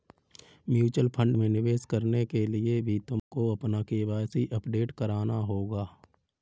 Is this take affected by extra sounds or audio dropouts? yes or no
yes